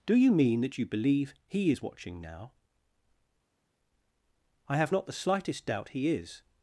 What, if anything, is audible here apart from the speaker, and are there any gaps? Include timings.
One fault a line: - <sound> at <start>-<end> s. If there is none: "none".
none